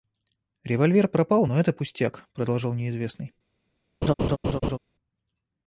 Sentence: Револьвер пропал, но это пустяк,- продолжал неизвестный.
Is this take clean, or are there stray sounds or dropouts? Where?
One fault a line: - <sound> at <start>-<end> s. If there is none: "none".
- laugh at 4.0-4.8 s